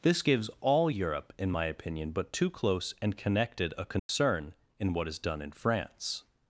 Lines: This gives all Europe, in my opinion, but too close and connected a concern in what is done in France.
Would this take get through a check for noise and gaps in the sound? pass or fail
fail